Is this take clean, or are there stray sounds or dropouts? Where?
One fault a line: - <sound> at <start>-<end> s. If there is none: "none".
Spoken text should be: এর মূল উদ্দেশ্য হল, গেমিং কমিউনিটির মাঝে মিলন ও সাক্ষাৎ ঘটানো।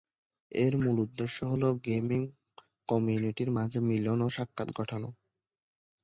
none